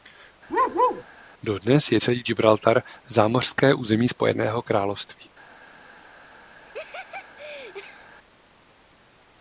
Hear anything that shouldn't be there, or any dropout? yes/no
yes